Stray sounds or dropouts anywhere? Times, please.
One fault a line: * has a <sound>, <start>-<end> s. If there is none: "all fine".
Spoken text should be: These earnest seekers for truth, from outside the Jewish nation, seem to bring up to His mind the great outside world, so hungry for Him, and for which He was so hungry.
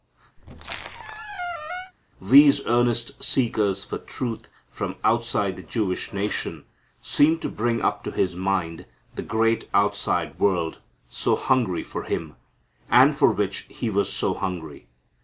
* has a squeak, 0.4-1.9 s